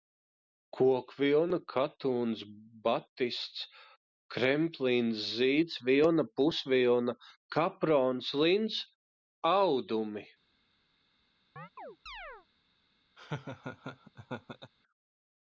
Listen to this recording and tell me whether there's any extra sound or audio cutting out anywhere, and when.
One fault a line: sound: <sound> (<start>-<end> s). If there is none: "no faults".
sound: chirp (11.6-12.5 s)
sound: laugh (13.2-14.7 s)